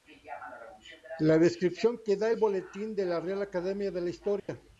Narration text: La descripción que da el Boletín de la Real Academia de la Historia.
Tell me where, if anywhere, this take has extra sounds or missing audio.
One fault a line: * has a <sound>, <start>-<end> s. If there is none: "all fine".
* has a dropout, 4.4-4.5 s